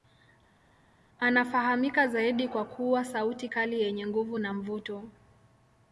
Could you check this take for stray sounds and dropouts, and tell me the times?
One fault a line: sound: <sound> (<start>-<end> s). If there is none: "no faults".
no faults